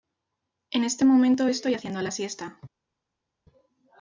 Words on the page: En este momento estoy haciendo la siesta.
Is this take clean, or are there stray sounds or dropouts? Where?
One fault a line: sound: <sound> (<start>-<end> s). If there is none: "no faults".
no faults